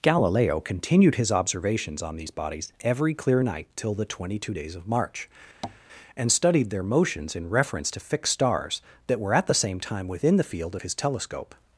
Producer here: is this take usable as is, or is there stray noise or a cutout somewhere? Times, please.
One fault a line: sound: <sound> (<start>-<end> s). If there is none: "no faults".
sound: tap (5.6-5.8 s)